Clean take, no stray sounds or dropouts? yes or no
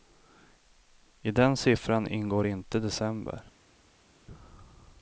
yes